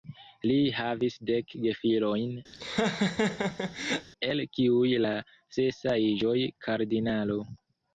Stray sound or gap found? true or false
true